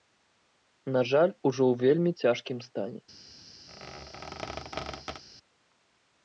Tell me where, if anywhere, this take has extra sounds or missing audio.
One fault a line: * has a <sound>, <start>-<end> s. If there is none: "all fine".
* has a squeak, 3.7-5.2 s